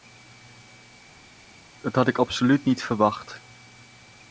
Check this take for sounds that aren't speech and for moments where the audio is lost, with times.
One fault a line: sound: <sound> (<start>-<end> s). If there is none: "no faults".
no faults